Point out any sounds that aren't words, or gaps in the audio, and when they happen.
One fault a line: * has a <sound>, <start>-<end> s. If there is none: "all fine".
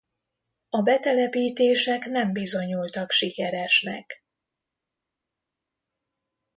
all fine